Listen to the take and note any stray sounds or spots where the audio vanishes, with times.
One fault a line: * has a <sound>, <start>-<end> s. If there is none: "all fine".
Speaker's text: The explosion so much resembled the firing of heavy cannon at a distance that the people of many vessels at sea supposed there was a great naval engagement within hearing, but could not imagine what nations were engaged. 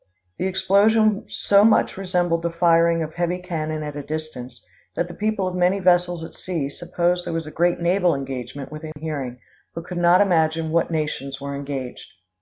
* has a dropout, 8.9-9.0 s